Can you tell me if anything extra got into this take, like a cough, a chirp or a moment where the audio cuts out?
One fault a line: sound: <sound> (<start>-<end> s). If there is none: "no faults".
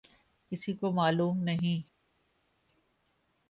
no faults